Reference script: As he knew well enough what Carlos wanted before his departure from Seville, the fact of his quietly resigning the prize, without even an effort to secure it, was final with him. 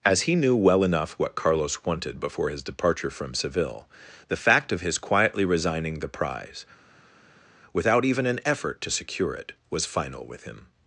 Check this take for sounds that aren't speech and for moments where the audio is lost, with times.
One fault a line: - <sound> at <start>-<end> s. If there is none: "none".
none